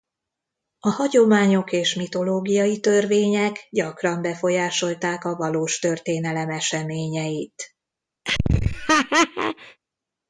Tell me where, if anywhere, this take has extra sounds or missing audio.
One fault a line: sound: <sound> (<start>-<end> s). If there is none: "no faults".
sound: laugh (8.2-9.8 s)